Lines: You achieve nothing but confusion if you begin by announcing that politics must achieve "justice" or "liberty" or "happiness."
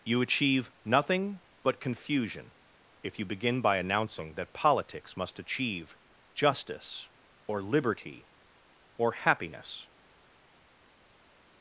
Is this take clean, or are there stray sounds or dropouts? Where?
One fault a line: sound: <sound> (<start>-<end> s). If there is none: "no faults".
no faults